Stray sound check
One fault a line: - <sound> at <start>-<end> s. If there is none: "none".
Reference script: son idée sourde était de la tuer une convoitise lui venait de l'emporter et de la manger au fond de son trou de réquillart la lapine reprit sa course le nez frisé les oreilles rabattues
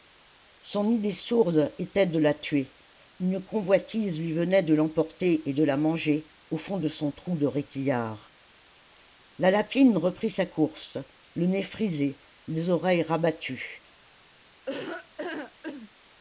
- laugh at 14.7-15.9 s